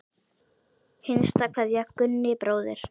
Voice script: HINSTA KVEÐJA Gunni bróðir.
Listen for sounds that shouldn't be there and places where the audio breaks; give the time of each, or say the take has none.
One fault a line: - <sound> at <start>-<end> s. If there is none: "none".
none